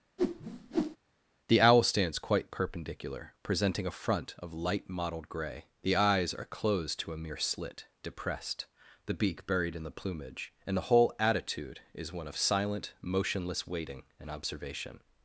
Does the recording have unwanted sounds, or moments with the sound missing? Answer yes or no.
yes